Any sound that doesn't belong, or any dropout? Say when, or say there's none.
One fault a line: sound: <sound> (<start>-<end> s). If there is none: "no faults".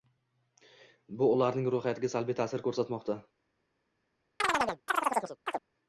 sound: chirp (4.4-5.6 s)